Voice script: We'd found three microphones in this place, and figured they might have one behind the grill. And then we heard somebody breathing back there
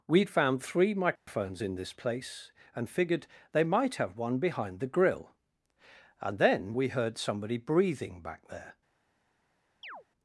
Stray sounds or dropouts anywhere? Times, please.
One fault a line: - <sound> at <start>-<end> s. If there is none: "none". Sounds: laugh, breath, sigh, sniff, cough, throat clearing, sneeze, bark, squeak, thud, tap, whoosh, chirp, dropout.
- dropout at 1.2-1.3 s
- chirp at 9.8-10.0 s